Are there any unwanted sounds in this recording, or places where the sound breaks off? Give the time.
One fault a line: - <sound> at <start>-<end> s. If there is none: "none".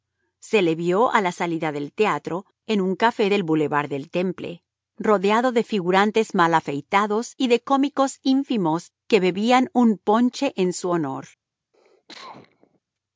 - cough at 11.7-12.8 s